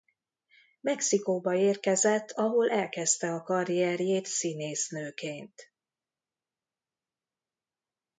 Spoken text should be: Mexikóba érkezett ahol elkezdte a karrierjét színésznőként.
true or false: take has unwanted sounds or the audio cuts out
false